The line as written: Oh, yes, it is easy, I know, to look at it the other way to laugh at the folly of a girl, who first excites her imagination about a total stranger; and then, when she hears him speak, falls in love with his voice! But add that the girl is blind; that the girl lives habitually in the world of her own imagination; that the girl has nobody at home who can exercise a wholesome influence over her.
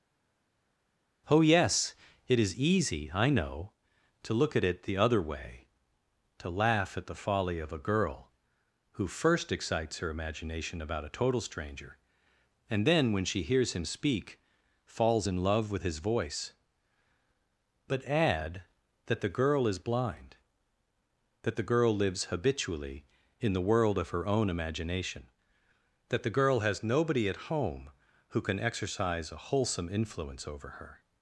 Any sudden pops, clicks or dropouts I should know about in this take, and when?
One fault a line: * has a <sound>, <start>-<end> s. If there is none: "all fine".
all fine